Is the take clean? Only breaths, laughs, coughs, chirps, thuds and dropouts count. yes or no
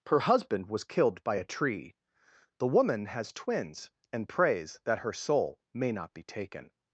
yes